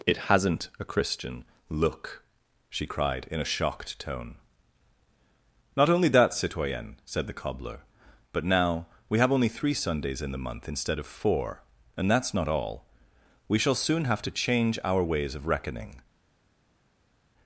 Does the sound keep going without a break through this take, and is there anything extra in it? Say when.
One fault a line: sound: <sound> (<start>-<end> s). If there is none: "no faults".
no faults